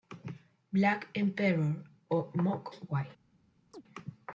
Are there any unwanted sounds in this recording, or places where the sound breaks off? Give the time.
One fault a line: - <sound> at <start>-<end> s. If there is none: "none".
- chirp at 3.7-3.8 s